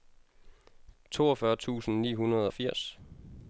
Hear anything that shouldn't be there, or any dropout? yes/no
no